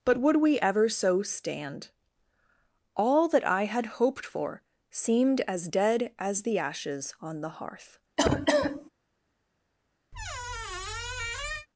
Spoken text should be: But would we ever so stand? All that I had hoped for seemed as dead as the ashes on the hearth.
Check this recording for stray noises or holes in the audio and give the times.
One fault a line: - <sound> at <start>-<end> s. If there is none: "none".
- cough at 8.2-8.9 s
- squeak at 10.1-11.7 s